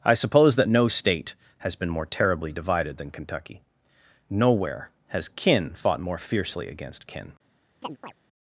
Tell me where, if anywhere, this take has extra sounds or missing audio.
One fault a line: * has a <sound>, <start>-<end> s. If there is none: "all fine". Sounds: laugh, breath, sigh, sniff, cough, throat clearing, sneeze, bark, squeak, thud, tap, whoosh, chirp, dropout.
* has a chirp, 7.8-8.1 s